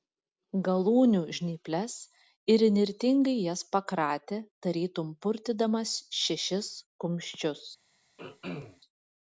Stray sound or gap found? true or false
true